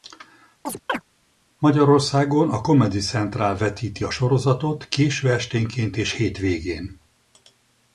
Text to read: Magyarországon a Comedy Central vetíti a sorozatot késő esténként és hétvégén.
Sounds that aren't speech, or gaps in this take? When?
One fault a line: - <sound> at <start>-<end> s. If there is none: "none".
- chirp at 0.7-1.0 s